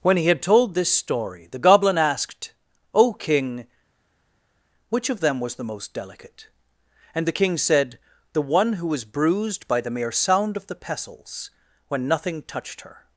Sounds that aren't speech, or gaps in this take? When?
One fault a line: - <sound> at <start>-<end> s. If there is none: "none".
none